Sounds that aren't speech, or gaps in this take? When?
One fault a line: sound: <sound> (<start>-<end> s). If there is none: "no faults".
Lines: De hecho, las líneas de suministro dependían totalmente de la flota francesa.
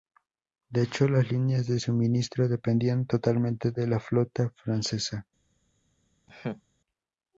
sound: laugh (6.3-6.6 s)